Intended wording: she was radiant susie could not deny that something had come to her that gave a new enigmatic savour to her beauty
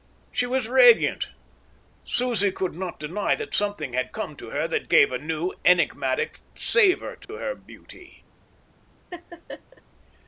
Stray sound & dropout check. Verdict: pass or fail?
fail